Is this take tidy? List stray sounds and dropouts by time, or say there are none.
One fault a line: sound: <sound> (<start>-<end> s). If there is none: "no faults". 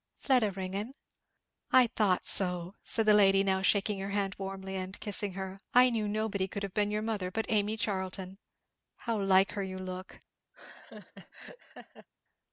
sound: laugh (10.5-12.1 s)